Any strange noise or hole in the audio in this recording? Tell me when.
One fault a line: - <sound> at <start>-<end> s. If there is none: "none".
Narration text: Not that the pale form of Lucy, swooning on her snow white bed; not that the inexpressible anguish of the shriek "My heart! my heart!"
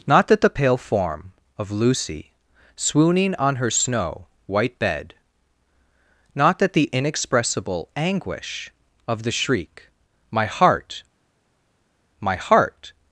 none